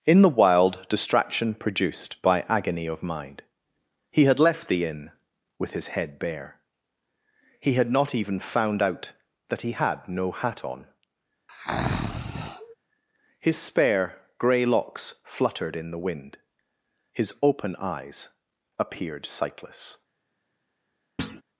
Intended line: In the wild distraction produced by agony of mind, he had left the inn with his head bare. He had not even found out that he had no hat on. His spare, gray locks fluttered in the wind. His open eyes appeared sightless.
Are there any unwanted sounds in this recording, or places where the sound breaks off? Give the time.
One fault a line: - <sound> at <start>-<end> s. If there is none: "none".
- breath at 11.5-12.7 s
- thud at 21.2-21.4 s